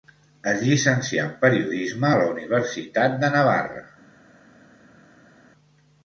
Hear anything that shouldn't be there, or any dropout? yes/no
no